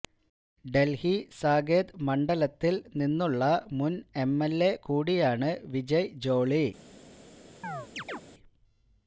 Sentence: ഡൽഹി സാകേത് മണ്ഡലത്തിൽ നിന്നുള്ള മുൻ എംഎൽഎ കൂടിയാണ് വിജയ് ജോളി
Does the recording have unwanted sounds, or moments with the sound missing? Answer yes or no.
yes